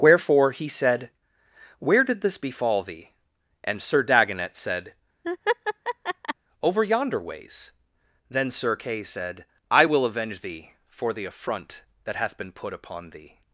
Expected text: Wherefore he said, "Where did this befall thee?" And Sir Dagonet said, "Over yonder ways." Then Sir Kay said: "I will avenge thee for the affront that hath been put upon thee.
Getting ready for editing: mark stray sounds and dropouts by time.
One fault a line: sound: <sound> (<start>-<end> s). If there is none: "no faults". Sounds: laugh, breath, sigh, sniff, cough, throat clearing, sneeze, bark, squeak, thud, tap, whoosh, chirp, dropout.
sound: laugh (5.2-6.3 s)